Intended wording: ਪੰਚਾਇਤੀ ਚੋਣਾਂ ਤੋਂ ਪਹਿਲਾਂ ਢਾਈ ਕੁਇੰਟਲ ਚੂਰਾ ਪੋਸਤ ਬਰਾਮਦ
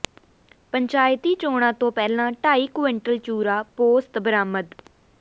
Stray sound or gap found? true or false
false